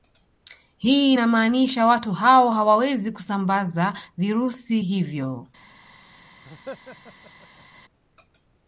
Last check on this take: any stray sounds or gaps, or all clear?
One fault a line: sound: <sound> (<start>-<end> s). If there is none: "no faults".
sound: laugh (6.4-7.8 s)